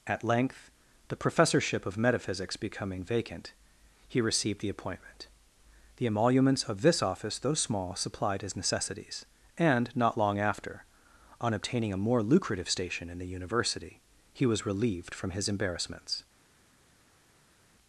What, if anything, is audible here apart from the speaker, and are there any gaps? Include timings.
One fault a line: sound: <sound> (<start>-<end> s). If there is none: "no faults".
no faults